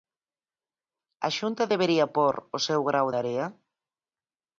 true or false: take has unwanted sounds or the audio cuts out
false